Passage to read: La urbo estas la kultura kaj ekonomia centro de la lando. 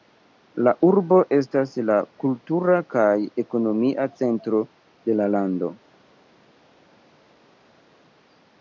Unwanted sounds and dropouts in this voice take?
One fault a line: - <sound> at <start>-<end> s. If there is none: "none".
none